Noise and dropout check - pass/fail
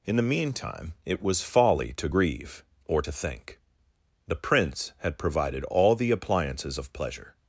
pass